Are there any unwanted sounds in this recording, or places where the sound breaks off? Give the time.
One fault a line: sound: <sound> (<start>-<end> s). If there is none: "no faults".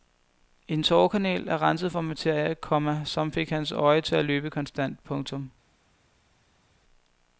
no faults